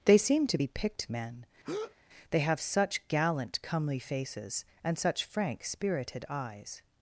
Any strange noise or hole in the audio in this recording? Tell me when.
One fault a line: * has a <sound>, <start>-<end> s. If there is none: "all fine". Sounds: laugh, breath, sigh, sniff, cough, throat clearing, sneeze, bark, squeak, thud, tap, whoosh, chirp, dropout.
* has a breath, 1.6-2.0 s